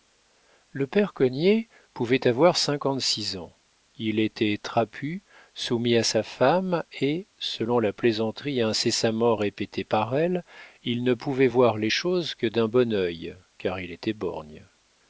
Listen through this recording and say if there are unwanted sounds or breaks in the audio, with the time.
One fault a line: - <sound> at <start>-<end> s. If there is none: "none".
none